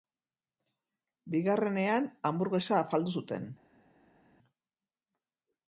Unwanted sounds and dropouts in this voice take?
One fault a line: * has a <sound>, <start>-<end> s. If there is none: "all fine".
all fine